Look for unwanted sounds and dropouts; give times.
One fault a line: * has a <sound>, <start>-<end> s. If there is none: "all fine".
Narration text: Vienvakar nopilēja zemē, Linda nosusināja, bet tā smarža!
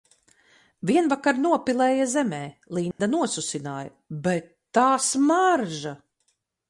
* has a dropout, 2.9-3.0 s